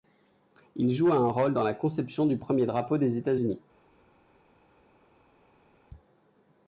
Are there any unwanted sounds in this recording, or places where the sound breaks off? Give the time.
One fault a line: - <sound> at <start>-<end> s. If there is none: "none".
none